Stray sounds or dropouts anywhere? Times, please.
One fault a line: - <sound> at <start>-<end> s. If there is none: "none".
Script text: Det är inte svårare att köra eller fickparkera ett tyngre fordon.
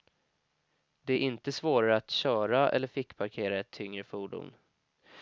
none